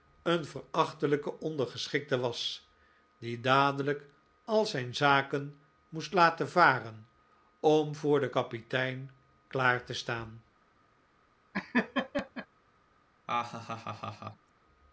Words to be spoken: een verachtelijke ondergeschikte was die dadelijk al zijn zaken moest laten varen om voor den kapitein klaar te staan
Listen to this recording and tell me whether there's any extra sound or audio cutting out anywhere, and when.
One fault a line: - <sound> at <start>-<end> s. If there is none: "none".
- laugh at 11.5-12.5 s
- laugh at 13.3-14.5 s